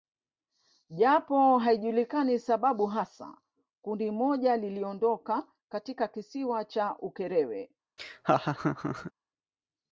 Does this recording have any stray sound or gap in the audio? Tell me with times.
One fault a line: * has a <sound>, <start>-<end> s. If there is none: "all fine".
* has a laugh, 8.0-9.1 s